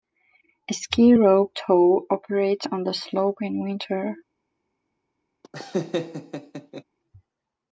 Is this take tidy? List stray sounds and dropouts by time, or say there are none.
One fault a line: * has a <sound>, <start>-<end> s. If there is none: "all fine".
* has a laugh, 5.4-6.8 s